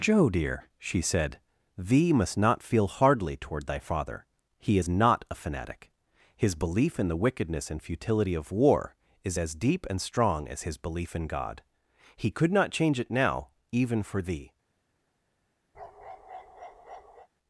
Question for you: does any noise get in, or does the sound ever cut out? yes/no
yes